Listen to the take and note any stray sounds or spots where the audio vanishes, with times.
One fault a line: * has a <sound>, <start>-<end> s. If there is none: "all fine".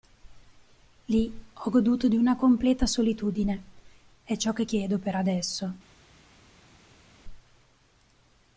all fine